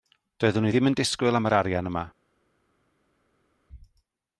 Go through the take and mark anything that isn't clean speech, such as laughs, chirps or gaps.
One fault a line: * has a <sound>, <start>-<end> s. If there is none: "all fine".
all fine